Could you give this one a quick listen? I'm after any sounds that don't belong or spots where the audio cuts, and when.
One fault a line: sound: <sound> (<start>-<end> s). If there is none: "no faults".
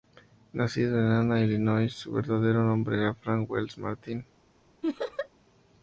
sound: laugh (4.8-5.3 s)